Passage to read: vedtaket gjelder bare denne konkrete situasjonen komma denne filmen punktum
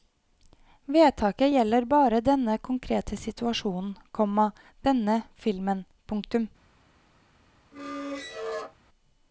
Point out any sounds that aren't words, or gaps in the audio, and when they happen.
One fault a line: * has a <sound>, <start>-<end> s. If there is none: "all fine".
* has a squeak, 7.7-8.8 s